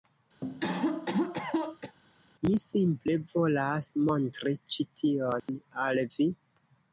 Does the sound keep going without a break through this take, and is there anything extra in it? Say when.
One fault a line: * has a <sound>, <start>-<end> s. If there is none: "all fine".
* has a cough, 0.4-2.0 s
* has a dropout, 5.4-5.5 s